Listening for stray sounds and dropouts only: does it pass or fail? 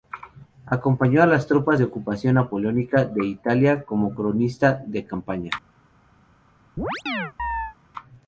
fail